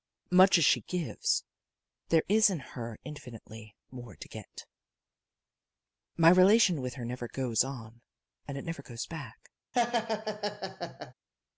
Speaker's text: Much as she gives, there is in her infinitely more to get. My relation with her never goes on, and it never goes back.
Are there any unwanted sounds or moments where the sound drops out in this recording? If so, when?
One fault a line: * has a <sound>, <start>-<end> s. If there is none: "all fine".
* has a laugh, 9.7-11.1 s